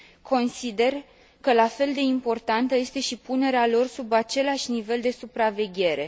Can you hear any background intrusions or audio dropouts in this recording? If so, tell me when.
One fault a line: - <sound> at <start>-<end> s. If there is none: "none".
none